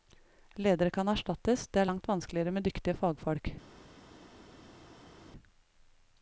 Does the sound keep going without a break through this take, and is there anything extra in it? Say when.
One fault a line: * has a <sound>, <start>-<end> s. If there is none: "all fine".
all fine